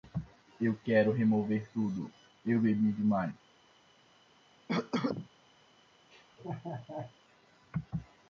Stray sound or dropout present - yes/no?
yes